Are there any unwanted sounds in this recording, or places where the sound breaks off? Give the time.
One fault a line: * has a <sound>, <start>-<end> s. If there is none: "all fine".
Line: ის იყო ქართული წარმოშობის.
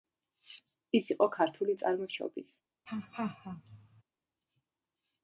* has a laugh, 2.9-4.0 s